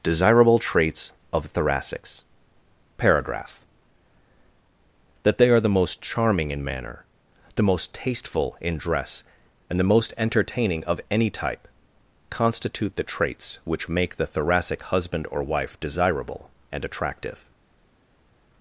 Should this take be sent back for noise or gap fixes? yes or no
no